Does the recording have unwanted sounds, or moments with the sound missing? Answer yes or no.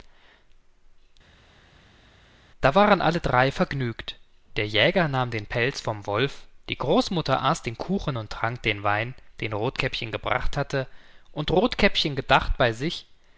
no